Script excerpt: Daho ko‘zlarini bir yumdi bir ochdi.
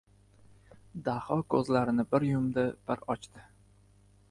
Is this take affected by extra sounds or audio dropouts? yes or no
no